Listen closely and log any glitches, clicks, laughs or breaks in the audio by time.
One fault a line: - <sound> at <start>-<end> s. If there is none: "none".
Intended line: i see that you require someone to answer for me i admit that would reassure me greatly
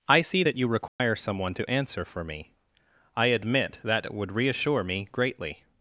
- dropout at 0.9-1.0 s